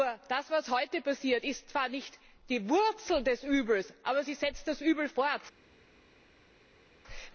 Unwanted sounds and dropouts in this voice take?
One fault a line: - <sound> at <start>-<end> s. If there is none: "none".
none